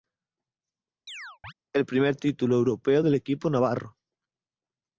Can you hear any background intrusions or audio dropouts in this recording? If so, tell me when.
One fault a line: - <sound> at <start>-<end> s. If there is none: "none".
- chirp at 1.1-1.5 s